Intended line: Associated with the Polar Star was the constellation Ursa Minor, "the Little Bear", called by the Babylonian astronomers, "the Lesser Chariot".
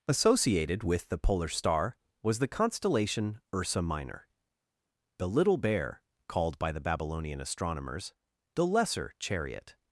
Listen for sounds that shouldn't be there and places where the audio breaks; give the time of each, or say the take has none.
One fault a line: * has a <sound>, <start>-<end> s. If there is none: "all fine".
all fine